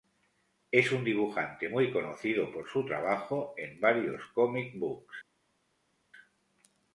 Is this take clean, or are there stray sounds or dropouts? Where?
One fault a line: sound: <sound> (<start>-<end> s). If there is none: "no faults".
no faults